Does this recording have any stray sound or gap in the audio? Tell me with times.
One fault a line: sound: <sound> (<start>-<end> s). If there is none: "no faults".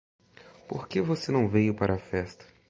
no faults